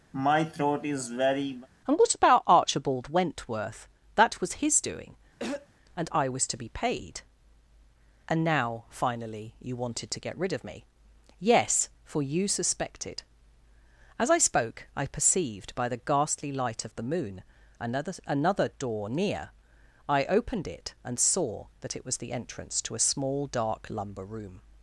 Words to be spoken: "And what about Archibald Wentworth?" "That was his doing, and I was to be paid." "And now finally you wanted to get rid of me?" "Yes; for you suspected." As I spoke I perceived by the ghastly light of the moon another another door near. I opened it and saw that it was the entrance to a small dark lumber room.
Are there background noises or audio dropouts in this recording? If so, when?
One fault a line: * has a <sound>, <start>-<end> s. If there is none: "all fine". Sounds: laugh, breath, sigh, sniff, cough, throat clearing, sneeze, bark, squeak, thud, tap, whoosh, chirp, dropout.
* has a throat clearing, 0.1-1.7 s
* has a throat clearing, 5.4-5.7 s